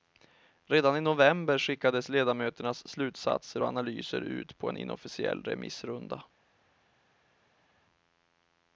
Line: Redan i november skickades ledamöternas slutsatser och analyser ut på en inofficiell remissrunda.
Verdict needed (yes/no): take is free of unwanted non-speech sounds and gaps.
yes